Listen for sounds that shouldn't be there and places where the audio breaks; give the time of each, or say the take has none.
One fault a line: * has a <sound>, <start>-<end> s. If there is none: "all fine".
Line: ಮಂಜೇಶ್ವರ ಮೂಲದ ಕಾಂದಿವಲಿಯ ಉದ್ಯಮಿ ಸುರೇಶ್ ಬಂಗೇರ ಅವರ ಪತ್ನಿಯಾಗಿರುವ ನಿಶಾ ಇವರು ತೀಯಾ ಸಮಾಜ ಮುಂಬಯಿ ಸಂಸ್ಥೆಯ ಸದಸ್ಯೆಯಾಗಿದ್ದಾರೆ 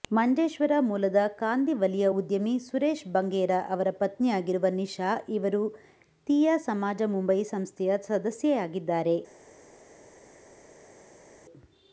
all fine